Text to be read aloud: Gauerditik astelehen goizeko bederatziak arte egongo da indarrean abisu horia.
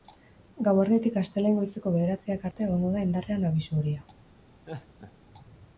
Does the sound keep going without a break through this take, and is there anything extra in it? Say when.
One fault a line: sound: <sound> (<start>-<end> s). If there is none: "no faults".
sound: laugh (4.6-5.1 s)